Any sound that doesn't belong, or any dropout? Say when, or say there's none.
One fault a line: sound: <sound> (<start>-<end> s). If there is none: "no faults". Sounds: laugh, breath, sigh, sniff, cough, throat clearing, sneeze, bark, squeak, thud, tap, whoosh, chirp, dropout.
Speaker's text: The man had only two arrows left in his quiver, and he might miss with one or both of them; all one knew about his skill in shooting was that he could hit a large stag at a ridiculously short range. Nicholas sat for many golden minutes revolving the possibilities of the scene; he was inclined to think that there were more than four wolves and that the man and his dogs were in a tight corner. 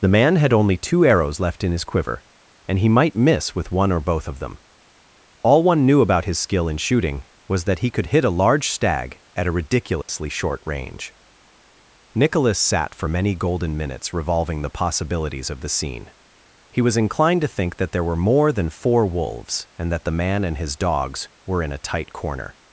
sound: dropout (10.0-10.1 s)